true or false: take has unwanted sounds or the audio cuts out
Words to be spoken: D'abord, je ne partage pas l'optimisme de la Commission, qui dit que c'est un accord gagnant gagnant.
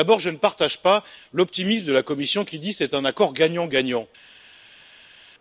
false